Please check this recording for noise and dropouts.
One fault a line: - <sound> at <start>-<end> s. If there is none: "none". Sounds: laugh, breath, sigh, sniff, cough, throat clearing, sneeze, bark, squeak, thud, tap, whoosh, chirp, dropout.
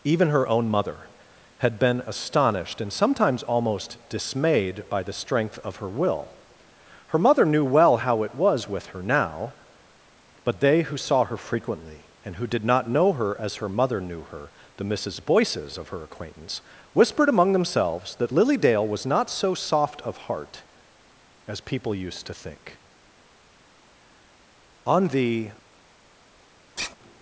- sigh at 26.8-27.0 s